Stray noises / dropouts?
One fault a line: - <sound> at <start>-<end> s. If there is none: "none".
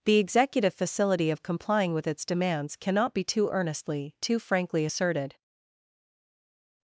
none